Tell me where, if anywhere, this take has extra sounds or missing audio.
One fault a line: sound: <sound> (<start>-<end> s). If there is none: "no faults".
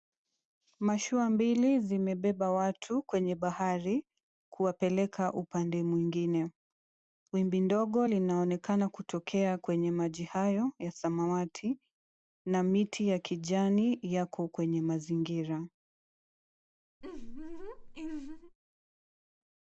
sound: laugh (17.0-18.6 s)